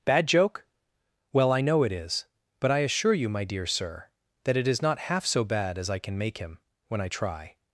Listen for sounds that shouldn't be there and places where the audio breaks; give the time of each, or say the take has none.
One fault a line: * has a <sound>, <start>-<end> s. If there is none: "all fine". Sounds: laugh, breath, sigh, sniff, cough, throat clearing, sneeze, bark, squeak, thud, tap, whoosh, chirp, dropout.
all fine